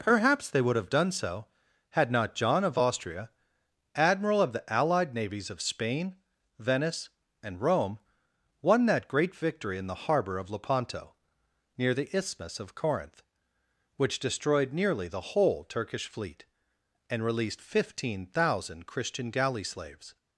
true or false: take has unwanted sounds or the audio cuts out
false